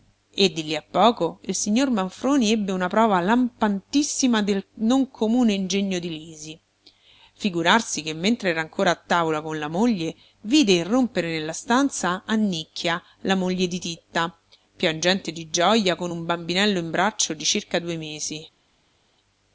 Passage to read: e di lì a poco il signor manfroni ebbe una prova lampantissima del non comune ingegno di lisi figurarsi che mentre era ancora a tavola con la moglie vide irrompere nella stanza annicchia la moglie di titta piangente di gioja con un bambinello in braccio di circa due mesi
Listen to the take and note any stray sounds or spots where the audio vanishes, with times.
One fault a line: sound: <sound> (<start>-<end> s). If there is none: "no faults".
no faults